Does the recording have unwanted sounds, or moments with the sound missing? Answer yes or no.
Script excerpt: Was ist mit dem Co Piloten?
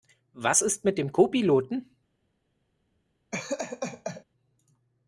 yes